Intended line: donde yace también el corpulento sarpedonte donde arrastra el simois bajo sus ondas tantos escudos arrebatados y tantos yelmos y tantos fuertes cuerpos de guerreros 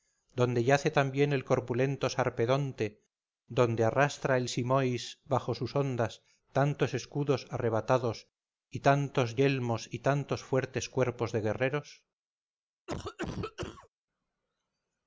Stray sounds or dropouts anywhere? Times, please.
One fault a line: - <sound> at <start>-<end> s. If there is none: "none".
- cough at 12.9-13.9 s